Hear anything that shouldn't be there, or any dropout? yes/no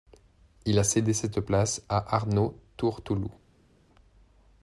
no